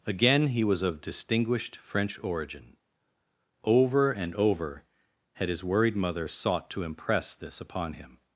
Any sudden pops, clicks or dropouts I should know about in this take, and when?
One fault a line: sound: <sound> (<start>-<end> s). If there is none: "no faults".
no faults